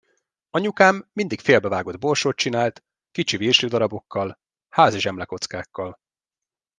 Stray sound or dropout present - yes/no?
no